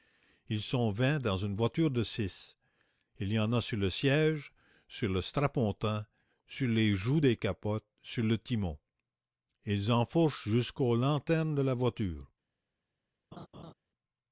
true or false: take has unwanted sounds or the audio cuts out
true